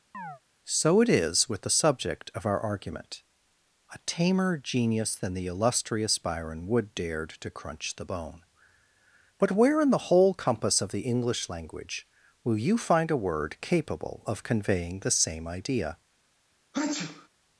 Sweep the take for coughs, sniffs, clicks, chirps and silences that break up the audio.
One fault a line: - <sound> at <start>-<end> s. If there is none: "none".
- chirp at 0.1-0.4 s
- sneeze at 16.7-17.3 s